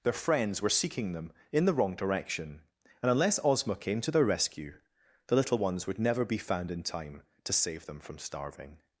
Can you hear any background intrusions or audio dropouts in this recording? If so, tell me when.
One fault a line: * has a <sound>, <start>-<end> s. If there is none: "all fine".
all fine